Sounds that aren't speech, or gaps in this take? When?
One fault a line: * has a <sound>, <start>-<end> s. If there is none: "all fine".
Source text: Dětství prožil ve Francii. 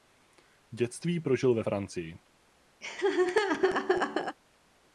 * has a laugh, 2.8-4.4 s